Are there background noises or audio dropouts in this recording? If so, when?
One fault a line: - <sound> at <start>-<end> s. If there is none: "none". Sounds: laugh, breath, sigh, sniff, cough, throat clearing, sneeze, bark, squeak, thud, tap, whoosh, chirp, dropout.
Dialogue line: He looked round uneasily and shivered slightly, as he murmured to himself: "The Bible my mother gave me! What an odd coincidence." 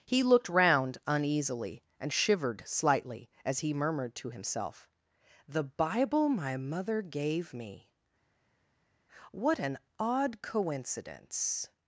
none